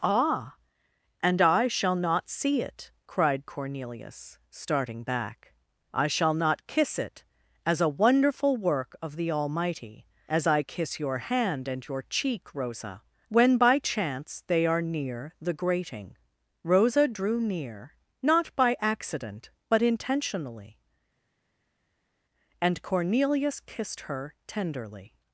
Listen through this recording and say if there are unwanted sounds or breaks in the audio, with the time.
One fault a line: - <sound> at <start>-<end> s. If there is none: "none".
none